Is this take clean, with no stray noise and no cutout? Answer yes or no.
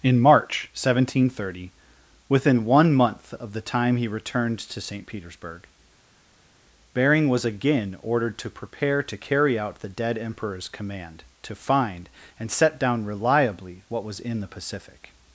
yes